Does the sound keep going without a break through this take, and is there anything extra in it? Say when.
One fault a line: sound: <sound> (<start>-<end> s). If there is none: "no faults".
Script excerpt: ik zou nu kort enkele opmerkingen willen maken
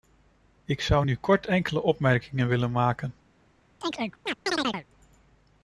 sound: chirp (3.8-4.9 s)